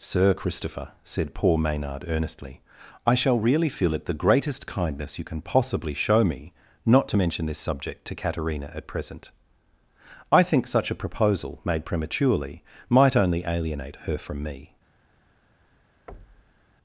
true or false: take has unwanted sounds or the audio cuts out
true